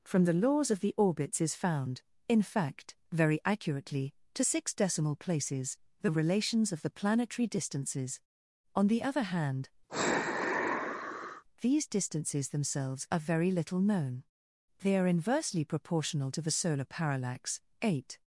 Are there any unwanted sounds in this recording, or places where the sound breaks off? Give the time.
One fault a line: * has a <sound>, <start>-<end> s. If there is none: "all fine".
* has a sigh, 9.9-11.4 s